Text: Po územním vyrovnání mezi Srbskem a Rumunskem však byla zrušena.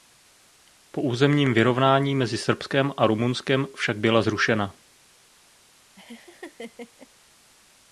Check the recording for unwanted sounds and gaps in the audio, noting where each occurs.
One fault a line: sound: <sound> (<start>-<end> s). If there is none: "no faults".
sound: laugh (6.0-7.1 s)